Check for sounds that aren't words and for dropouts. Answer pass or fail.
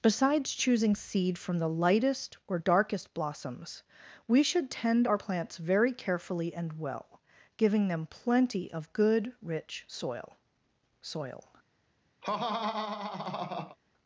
fail